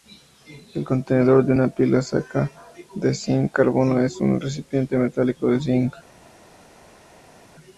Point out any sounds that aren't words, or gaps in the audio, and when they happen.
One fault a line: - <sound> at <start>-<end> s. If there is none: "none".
none